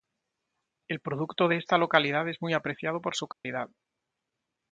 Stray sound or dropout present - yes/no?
yes